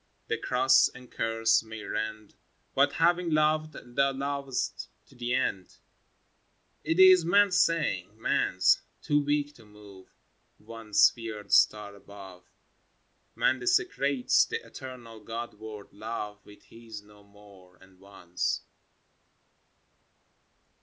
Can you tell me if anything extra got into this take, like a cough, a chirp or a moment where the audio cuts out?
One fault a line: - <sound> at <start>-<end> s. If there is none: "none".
none